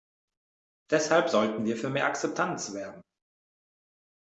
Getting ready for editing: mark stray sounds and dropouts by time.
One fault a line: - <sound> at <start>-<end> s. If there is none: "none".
none